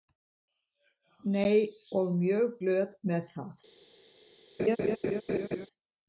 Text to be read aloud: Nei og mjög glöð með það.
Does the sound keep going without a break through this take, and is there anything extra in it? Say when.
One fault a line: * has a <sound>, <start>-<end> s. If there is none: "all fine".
* has a laugh, 4.6-5.7 s